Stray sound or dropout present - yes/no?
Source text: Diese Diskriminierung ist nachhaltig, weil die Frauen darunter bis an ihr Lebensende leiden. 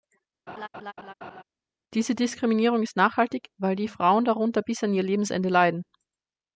yes